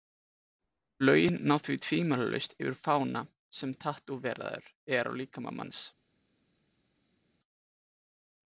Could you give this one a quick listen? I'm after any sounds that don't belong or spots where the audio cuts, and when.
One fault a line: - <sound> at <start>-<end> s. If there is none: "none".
none